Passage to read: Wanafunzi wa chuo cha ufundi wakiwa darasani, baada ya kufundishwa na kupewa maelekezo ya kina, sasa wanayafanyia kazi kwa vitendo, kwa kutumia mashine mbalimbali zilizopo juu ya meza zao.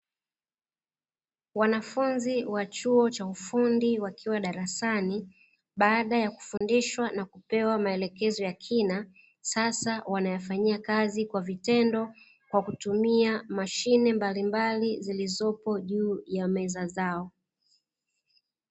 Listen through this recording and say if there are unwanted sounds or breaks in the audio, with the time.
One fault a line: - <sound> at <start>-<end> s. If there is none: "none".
- dropout at 6.6-6.6 s